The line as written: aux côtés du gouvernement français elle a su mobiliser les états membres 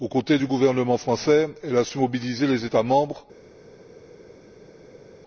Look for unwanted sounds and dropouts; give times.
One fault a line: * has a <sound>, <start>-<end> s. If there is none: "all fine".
all fine